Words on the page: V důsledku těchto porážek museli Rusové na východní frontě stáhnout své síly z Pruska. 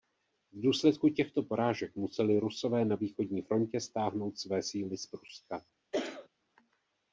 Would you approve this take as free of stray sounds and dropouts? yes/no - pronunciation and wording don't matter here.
no